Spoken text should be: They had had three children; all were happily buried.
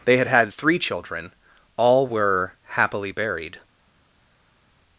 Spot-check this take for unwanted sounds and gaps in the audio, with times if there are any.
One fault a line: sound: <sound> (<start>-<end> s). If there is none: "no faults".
no faults